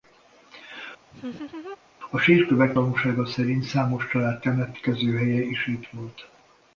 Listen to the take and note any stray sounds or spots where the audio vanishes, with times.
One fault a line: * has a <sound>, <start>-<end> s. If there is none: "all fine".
* has a laugh, 1.1-1.8 s